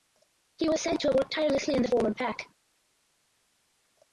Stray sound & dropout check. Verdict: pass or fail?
pass